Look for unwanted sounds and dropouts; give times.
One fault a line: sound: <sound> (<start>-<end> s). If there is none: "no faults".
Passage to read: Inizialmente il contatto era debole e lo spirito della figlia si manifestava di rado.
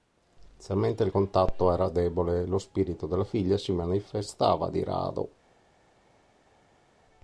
no faults